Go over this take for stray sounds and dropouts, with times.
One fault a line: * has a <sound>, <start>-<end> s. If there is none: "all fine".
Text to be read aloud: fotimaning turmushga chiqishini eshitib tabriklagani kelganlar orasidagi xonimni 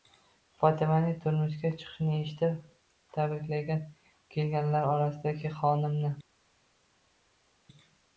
all fine